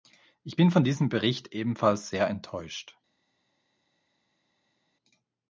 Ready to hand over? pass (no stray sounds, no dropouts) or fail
pass